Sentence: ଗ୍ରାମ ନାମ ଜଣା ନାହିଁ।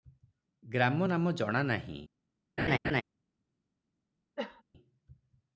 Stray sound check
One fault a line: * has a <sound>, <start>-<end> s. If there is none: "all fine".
* has a laugh, 2.6-3.0 s
* has a cough, 4.4-4.6 s